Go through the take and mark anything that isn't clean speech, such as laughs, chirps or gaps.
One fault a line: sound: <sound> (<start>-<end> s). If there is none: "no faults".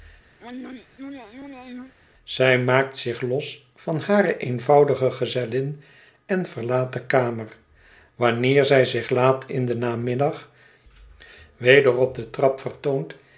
sound: throat clearing (0.4-1.9 s)